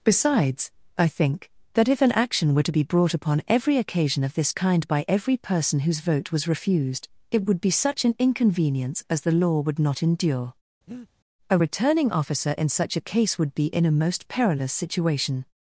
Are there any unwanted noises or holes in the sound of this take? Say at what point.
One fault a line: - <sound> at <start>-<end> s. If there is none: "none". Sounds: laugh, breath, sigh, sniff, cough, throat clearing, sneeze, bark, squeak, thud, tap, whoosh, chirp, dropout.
- breath at 10.9-11.1 s